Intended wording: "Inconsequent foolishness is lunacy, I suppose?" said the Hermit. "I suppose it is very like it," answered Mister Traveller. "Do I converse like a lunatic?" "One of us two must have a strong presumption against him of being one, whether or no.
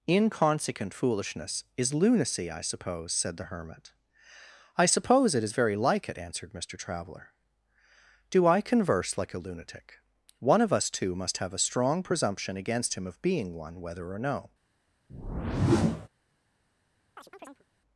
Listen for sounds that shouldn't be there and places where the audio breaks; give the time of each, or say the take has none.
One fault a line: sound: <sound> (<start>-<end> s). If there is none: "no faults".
sound: whoosh (15.1-16.1 s)
sound: chirp (17.2-17.6 s)